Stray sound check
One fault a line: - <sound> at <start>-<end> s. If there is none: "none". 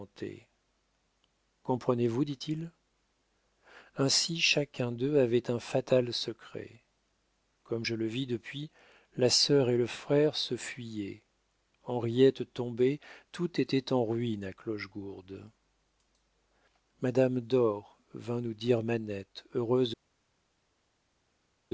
none